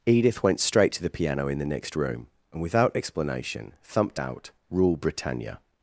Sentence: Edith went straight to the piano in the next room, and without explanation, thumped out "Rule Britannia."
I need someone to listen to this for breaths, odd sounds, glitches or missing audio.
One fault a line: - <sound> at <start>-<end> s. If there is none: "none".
none